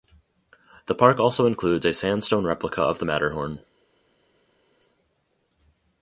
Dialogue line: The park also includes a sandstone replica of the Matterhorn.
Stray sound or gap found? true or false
false